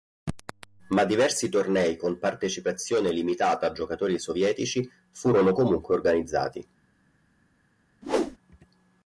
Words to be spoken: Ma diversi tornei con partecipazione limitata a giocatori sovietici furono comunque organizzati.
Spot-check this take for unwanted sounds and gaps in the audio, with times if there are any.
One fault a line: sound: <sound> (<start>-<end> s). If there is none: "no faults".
sound: whoosh (8.0-8.4 s)